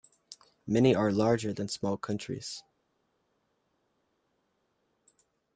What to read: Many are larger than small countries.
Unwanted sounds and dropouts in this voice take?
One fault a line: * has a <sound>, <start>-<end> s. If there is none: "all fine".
all fine